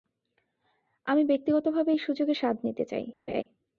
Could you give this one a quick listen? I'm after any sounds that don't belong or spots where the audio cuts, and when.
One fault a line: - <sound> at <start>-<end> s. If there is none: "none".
- laugh at 3.3-3.4 s